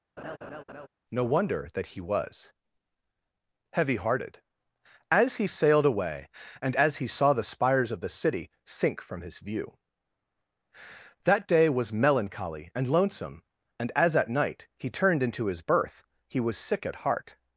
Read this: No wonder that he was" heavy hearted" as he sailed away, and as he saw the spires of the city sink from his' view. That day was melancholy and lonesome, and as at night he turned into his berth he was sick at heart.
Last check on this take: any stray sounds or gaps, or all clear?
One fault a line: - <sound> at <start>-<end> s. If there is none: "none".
- laugh at 0.2-0.9 s